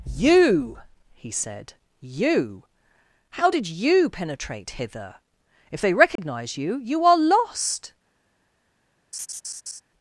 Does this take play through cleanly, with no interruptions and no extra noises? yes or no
no